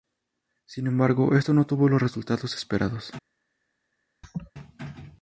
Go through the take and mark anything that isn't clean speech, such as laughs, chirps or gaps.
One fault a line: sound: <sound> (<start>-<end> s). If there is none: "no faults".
sound: laugh (4.2-4.5 s)